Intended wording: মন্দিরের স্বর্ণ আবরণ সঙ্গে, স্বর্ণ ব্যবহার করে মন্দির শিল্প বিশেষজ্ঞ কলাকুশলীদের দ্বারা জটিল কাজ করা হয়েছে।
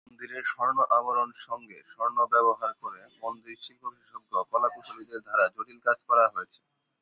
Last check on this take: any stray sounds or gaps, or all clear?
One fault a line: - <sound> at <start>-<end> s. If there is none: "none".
none